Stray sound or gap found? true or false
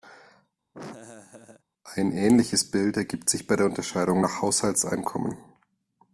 true